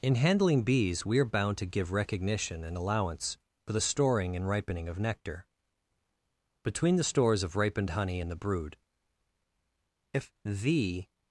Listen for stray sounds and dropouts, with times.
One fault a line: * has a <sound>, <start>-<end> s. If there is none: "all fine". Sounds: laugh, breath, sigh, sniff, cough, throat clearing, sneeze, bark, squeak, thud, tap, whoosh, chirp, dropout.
all fine